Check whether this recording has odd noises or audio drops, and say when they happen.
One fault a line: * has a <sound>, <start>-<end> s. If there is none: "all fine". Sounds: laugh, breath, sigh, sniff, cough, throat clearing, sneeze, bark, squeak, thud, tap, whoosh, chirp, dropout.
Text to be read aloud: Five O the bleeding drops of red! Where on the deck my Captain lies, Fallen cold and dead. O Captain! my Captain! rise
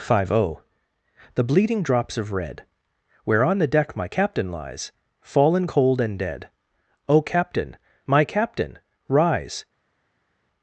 all fine